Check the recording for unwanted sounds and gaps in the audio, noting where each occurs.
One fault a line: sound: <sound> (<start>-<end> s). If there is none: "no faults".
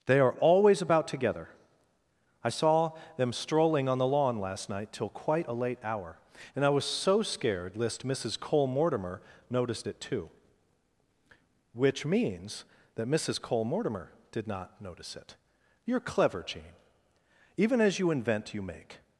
no faults